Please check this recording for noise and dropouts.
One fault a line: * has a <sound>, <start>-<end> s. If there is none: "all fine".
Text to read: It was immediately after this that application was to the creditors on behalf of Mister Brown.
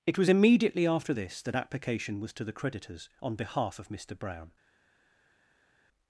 all fine